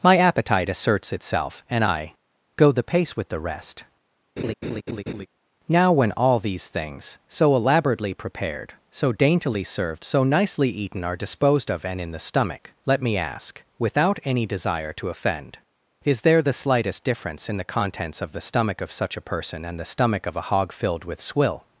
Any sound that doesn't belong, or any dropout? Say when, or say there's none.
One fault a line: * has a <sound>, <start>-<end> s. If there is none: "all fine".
* has a laugh, 4.4-5.3 s